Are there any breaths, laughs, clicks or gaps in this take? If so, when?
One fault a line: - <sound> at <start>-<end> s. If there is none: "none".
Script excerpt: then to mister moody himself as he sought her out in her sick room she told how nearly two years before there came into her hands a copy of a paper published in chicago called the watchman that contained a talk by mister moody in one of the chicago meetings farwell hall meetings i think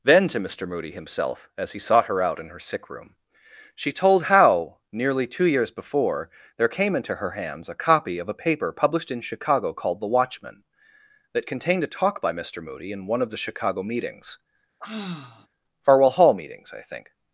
- sigh at 14.8-15.5 s